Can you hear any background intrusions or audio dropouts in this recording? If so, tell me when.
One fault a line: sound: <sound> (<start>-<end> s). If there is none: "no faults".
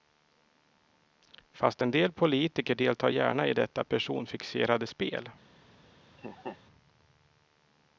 sound: laugh (6.2-6.6 s)